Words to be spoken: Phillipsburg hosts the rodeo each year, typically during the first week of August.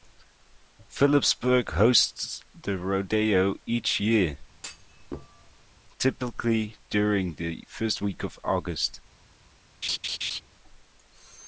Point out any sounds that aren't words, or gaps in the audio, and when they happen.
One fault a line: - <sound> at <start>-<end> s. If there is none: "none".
- thud at 4.5-5.7 s
- laugh at 9.8-10.4 s